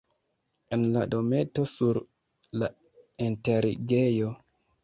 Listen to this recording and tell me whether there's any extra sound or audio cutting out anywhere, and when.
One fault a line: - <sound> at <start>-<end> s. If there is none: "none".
none